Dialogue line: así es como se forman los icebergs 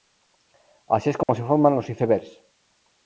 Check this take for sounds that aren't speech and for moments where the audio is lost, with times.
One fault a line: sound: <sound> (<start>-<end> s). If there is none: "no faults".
sound: dropout (1.2-1.3 s)